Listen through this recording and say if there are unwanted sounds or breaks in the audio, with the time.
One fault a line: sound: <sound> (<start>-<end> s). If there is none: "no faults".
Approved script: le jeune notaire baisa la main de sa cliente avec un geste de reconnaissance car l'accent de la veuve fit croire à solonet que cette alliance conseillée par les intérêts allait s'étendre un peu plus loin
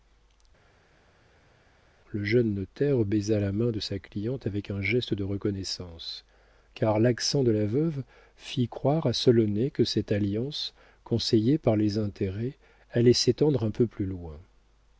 no faults